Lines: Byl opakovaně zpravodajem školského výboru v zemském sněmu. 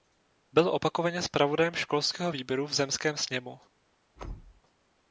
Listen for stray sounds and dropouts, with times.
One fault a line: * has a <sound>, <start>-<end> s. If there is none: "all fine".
* has a thud, 4.2-4.6 s